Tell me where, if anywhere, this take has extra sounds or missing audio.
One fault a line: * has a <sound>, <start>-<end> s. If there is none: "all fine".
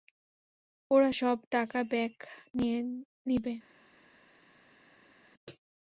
all fine